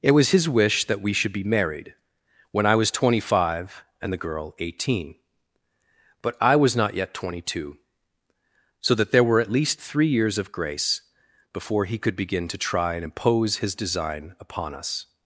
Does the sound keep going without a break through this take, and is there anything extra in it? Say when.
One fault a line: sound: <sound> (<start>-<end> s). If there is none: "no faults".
no faults